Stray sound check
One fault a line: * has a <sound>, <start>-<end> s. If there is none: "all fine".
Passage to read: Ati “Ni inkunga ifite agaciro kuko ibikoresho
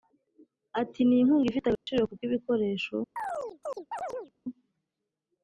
* has a dropout, 1.8-1.9 s
* has a chirp, 3.2-4.3 s